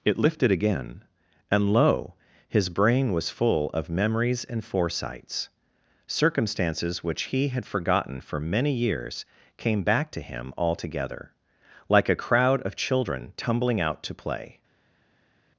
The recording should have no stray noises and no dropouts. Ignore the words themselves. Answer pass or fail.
pass